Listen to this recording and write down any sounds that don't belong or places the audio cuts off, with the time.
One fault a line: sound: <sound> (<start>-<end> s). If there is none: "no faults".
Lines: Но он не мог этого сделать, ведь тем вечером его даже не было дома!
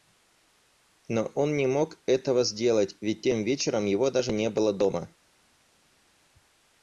no faults